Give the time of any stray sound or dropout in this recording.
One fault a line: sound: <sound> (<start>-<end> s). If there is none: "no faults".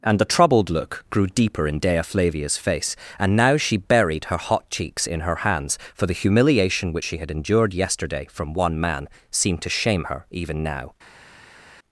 no faults